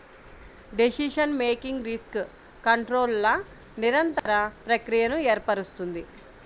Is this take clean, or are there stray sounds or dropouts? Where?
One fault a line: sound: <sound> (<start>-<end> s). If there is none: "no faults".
sound: dropout (4.2-4.3 s)